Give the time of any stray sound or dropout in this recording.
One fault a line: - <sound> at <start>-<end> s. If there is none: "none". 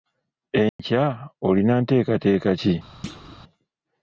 - dropout at 0.7-0.8 s
- thud at 3.0-3.4 s